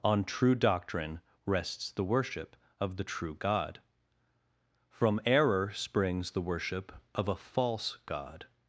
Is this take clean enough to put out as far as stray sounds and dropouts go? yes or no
yes